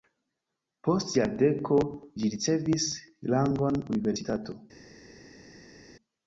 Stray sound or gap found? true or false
false